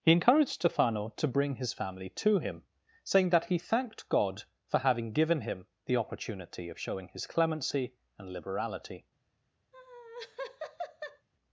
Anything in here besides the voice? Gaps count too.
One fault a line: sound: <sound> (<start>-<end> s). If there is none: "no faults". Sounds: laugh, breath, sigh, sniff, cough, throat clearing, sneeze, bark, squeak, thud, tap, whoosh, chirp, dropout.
sound: laugh (9.7-11.3 s)